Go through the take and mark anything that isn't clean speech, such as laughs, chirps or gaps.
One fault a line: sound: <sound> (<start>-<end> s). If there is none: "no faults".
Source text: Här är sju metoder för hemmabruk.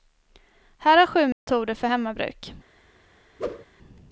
sound: dropout (1.3-1.5 s)
sound: whoosh (3.4-3.7 s)